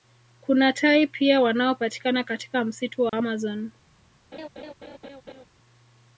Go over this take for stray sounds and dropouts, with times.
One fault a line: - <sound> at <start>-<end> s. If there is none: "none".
- dropout at 3.1-3.1 s
- laugh at 4.3-5.5 s